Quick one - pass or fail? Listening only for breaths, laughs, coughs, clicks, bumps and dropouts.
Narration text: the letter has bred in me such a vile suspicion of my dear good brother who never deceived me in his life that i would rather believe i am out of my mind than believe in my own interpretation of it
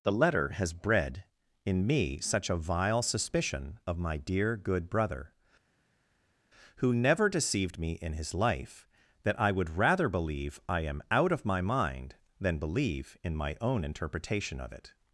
pass